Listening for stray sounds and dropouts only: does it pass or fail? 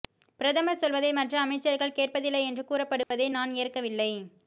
fail